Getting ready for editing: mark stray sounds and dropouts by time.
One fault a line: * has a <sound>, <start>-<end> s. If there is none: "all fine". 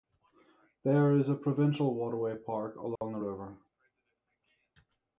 * has a dropout, 3.0-3.0 s